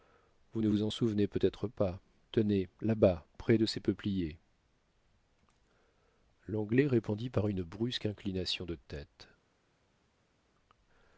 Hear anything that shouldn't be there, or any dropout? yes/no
no